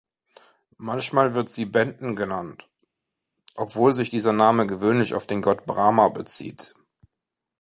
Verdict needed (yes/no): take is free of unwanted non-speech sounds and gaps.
yes